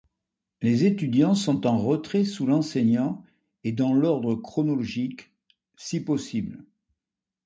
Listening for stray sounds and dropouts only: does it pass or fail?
pass